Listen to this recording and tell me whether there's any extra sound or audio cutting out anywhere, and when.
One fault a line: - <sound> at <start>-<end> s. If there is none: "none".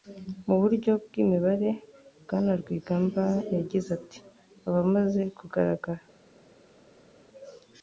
none